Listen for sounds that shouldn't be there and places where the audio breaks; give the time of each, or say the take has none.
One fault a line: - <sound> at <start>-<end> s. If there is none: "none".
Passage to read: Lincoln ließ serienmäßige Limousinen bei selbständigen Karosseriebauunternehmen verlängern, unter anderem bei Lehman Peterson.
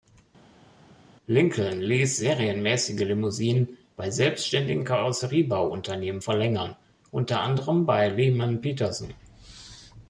none